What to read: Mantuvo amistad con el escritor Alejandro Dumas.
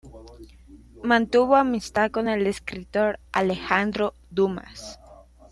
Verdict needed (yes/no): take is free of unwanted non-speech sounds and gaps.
yes